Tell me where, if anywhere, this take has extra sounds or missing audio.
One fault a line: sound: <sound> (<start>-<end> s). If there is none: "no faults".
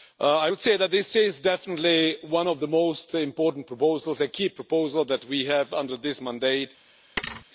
sound: thud (7.2-7.5 s)